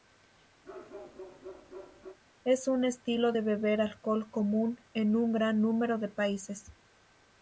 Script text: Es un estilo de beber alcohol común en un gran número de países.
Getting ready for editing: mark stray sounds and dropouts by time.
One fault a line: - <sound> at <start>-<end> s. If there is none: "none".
- bark at 0.6-2.2 s